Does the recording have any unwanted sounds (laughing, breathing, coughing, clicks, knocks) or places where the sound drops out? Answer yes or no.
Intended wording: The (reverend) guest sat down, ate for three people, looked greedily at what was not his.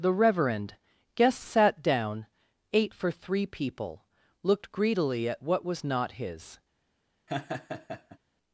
yes